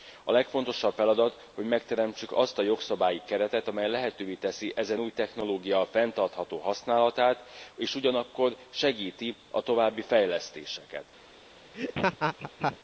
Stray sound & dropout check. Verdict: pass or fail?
fail